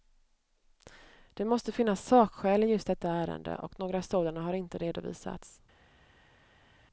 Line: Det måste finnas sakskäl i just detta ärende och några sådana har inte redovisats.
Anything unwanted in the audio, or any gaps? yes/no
no